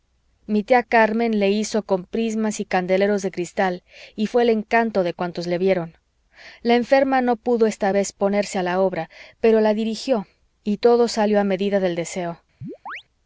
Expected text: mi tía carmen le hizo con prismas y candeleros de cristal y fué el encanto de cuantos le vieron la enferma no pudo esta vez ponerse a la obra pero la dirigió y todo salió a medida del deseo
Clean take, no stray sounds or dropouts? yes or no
no